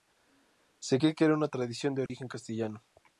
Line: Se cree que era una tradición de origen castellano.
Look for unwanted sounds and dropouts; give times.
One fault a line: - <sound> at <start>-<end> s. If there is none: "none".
- dropout at 2.1-2.1 s